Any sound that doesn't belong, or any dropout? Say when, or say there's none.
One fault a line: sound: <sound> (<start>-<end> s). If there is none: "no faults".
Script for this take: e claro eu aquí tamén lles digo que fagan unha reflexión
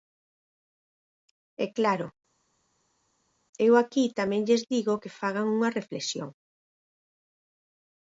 no faults